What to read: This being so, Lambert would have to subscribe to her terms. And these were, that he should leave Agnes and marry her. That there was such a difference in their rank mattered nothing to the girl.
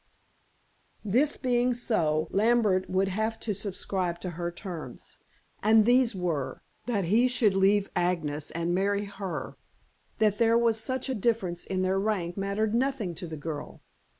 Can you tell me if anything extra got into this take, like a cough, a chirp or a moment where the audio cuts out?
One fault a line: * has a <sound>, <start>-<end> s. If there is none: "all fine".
all fine